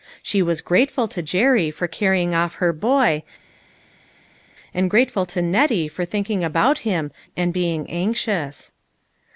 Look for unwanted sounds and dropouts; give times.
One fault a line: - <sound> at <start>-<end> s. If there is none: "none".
none